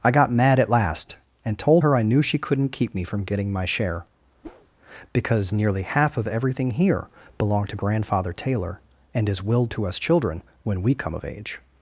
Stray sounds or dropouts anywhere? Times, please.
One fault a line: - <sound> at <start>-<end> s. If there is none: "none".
- whoosh at 4.4-4.7 s